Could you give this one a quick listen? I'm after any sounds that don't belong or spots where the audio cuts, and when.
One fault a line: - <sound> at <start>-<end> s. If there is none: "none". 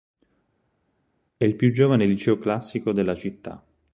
none